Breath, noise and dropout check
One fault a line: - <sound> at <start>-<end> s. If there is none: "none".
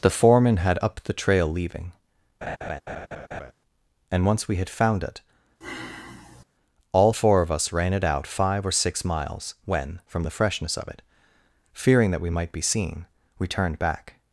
- laugh at 2.4-3.5 s
- sigh at 5.6-6.4 s